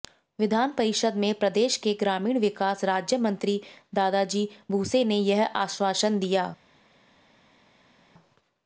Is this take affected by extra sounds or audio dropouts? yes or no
no